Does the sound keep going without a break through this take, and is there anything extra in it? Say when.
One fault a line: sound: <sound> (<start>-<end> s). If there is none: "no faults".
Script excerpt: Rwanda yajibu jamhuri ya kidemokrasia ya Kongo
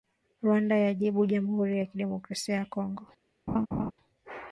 sound: laugh (3.5-3.9 s)